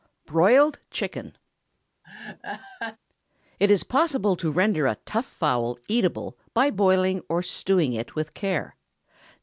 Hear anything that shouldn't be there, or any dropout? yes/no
yes